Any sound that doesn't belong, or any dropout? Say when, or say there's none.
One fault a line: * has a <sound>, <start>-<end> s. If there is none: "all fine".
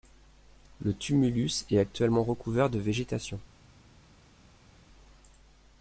all fine